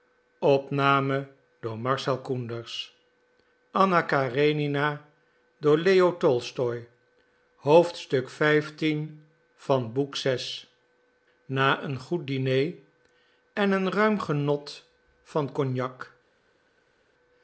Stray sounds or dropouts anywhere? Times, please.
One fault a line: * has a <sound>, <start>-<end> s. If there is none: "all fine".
all fine